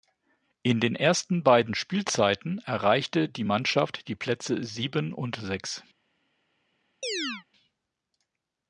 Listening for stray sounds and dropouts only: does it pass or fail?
fail